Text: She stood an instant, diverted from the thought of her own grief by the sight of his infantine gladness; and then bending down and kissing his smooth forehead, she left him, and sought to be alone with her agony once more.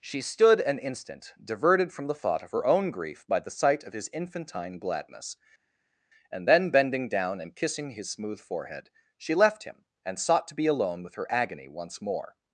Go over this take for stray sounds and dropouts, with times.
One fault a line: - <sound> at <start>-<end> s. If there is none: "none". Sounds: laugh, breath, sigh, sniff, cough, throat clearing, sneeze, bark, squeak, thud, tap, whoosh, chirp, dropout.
none